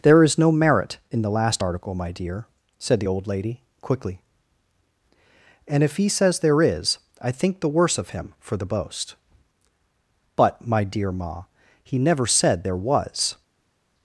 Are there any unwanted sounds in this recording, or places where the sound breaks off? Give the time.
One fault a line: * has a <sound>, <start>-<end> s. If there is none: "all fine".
all fine